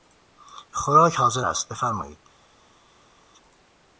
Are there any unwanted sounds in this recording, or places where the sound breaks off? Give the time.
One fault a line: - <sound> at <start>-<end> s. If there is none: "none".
none